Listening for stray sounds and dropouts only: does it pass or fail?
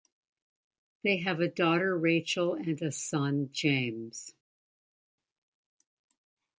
pass